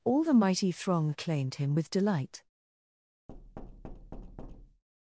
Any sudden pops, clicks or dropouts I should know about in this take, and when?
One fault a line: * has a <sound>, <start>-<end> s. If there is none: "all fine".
* has a thud, 3.3-4.8 s